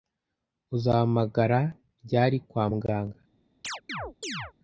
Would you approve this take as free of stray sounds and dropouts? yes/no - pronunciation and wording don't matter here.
no